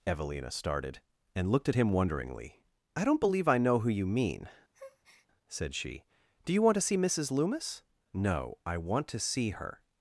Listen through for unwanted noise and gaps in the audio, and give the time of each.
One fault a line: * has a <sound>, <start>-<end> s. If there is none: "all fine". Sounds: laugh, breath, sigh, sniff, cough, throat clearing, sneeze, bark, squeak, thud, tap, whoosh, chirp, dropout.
* has a breath, 4.7-5.3 s